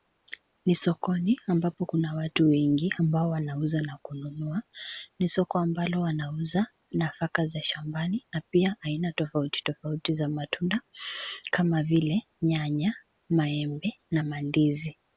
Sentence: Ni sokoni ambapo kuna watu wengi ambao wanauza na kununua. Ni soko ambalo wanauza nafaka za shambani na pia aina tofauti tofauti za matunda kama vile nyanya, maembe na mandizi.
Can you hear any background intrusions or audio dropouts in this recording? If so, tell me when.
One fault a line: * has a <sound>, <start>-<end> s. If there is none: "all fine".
all fine